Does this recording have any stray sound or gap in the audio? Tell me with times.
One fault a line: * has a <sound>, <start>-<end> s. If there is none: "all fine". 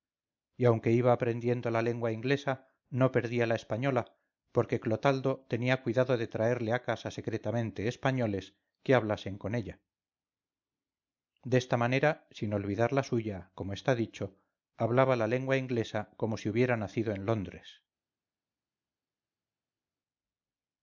all fine